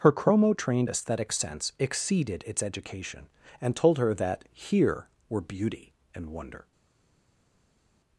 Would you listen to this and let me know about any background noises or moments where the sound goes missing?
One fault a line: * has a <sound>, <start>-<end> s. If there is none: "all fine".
all fine